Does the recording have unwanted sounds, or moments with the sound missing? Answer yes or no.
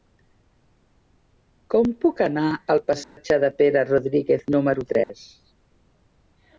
yes